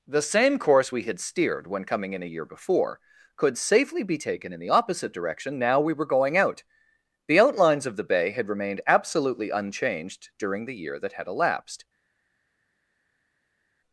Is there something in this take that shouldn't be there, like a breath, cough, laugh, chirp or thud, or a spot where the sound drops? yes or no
no